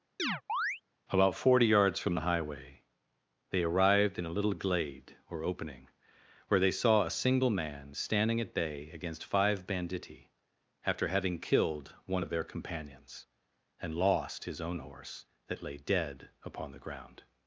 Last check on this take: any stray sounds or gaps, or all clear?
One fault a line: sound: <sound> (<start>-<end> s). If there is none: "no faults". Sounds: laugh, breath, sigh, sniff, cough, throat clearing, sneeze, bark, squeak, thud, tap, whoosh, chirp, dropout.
sound: chirp (0.2-0.8 s)